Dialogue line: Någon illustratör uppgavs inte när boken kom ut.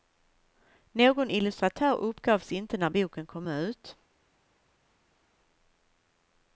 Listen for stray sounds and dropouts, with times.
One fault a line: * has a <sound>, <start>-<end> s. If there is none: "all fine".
all fine